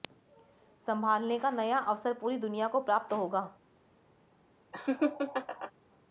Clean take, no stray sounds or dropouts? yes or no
no